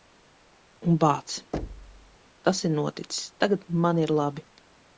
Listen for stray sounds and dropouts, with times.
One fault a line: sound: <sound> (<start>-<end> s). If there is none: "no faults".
sound: thud (1.5-2.2 s)